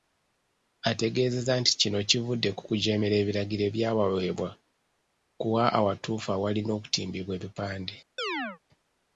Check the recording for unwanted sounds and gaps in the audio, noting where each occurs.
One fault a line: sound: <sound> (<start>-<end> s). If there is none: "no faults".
sound: chirp (8.2-8.6 s)